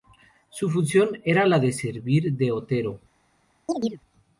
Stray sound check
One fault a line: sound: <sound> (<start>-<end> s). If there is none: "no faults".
sound: chirp (3.7-4.0 s)